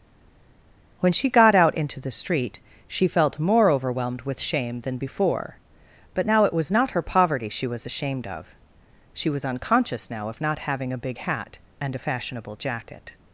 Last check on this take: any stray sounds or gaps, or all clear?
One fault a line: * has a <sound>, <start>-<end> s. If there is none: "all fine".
all fine